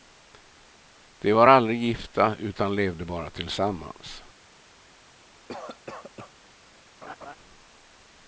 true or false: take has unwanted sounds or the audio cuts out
true